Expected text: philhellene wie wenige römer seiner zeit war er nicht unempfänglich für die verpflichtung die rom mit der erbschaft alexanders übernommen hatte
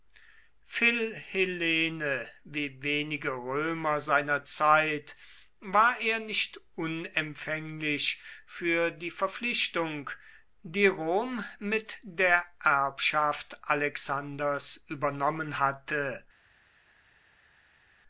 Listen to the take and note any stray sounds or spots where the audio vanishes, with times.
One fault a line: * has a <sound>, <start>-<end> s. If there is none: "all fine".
all fine